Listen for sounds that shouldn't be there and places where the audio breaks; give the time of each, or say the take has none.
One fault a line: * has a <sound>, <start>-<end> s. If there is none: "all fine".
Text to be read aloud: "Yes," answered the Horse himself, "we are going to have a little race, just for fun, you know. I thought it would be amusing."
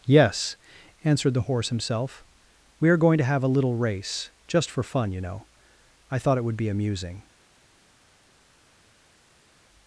all fine